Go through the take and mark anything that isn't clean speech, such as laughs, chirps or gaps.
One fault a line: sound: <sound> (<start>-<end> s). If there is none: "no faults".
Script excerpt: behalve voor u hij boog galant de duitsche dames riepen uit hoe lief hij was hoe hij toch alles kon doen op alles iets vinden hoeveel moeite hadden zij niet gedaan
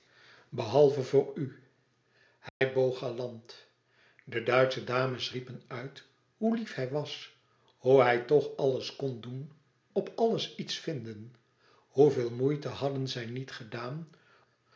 sound: dropout (2.5-2.6 s)